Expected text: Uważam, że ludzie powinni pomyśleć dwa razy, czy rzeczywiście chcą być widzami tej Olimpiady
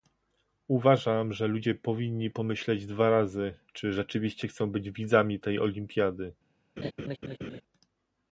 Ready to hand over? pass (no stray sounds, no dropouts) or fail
fail